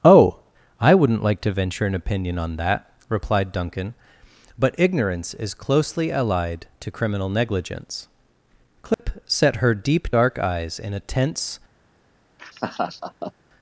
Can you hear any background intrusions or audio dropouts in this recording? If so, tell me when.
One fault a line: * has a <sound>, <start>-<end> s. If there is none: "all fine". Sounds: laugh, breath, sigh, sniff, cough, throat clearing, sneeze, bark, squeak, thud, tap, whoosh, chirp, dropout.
* has a dropout, 8.9-9.0 s
* has a laugh, 12.4-13.3 s